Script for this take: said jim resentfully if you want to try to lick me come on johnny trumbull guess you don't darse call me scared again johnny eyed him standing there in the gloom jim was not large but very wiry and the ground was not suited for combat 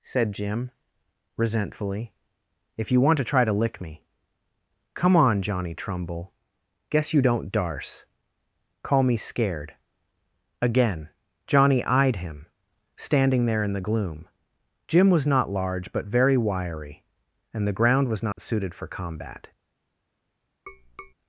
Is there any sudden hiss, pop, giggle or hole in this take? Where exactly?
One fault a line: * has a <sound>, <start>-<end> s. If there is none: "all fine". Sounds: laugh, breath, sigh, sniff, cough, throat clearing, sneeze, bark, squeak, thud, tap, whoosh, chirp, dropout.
* has a dropout, 18.3-18.4 s
* has a tap, 20.7-21.1 s